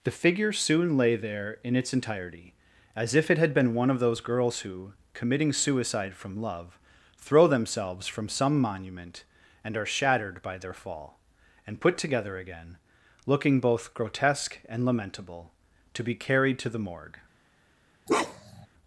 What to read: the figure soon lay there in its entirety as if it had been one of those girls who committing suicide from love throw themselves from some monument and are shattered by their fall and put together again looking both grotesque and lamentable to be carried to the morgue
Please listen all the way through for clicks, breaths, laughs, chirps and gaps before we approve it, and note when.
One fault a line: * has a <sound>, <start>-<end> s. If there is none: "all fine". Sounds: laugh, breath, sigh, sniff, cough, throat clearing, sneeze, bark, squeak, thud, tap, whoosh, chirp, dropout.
* has a bark, 18.1-18.7 s